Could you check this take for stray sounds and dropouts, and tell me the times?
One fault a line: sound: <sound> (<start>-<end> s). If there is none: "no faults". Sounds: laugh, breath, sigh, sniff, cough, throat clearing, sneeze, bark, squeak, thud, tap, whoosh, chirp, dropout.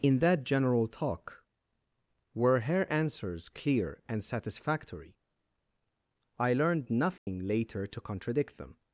sound: dropout (7.2-7.3 s)